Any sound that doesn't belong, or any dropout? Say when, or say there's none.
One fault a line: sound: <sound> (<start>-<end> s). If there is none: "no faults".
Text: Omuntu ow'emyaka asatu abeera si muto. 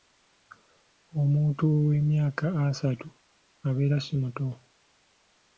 no faults